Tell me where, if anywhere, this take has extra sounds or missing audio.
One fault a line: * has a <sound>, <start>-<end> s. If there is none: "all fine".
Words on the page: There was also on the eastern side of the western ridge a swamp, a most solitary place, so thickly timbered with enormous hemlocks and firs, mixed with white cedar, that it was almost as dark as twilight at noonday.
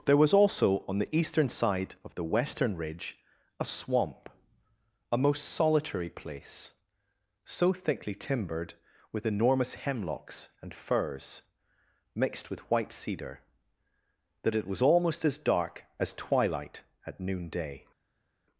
all fine